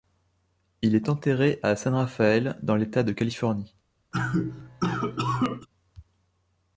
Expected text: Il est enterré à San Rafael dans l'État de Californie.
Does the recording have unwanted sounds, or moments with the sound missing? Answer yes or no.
yes